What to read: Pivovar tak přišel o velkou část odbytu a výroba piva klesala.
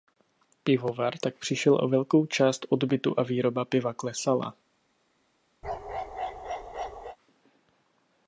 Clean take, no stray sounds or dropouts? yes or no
no